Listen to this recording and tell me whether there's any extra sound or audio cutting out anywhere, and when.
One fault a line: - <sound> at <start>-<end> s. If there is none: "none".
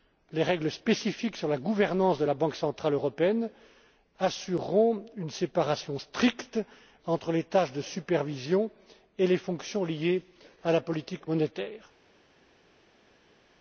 none